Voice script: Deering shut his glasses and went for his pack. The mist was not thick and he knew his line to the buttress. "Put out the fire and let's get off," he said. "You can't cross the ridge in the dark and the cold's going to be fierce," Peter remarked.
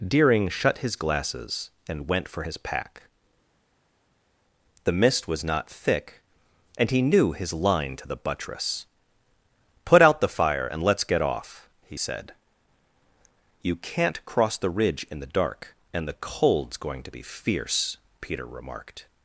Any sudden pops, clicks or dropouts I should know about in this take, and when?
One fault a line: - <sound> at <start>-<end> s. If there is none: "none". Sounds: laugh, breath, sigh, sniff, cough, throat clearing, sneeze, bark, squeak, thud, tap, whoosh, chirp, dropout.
none